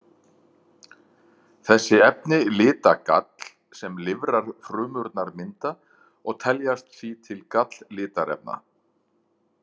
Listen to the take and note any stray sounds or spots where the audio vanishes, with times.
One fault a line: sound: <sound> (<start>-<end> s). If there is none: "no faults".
no faults